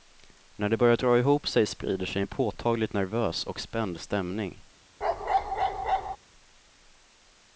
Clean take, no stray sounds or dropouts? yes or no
no